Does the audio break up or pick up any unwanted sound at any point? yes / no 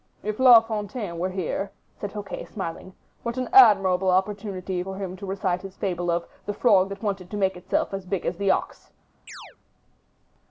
yes